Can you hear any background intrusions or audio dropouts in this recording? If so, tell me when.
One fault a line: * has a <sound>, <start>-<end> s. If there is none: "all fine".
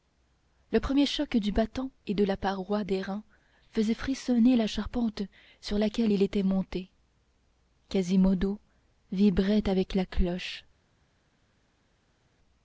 all fine